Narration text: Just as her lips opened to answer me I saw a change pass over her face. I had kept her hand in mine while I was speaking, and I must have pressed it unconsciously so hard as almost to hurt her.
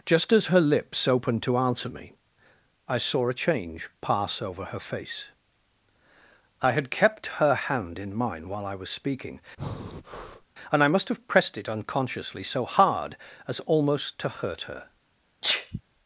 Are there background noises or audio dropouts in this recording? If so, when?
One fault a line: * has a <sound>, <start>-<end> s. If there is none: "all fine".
* has a breath, 9.6-10.5 s
* has a sneeze, 15.4-15.8 s